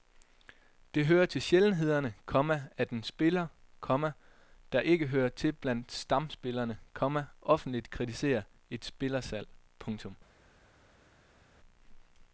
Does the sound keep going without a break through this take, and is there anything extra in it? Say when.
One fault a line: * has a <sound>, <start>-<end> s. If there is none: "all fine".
all fine